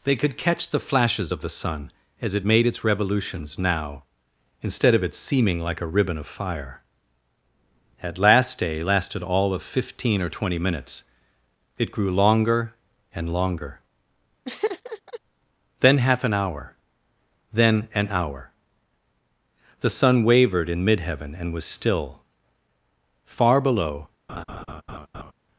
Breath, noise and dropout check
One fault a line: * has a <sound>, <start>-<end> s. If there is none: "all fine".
* has a laugh, 14.4-15.2 s
* has a laugh, 24.3-25.3 s